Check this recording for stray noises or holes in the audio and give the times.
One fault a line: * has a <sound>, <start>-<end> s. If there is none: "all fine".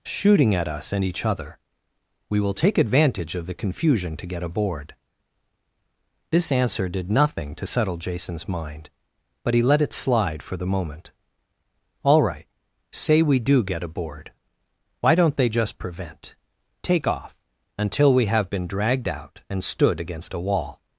all fine